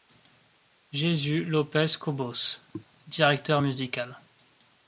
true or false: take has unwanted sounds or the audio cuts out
true